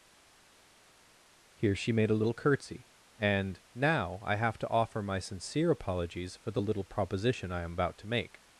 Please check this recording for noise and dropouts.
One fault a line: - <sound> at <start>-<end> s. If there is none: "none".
none